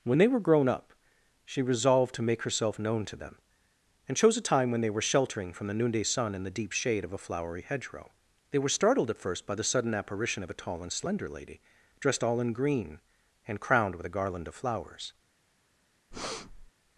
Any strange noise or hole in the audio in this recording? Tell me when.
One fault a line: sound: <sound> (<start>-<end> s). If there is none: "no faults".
sound: breath (16.1-16.7 s)